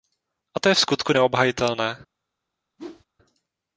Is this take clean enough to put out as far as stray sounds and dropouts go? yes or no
no